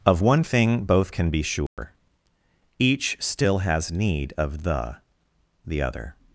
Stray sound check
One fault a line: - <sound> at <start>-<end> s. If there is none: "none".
- dropout at 1.7-1.8 s